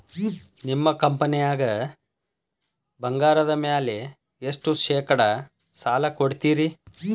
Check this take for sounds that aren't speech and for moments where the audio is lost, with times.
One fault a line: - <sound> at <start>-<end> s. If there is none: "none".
none